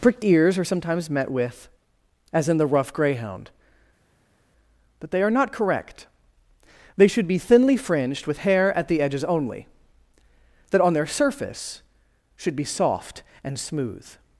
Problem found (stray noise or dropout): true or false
false